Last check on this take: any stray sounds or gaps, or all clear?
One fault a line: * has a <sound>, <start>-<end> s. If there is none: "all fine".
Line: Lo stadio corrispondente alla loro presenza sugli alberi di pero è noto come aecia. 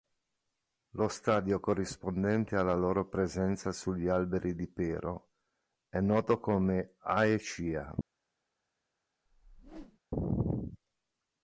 * has a whoosh, 9.3-10.0 s